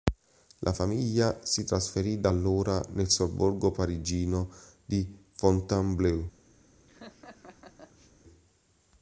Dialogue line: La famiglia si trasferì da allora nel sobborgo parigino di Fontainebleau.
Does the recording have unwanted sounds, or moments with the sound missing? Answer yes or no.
yes